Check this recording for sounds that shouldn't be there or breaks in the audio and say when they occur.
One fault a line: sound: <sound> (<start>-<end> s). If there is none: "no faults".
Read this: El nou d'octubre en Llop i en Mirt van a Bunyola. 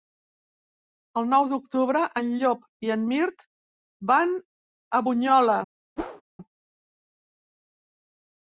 sound: whoosh (6.0-6.2 s)